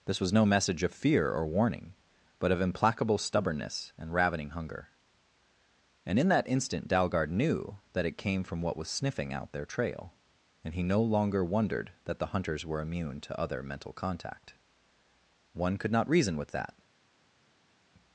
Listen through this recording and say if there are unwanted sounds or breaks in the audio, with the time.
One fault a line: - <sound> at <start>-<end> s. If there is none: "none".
none